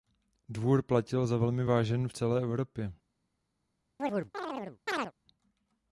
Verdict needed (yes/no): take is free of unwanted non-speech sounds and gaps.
no